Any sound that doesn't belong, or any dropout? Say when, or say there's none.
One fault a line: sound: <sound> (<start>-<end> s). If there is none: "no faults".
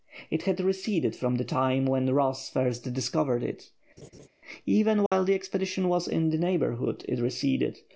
sound: laugh (4.0-4.3 s)
sound: dropout (5.1-5.1 s)